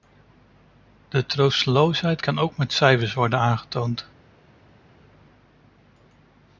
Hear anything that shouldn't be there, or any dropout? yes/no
no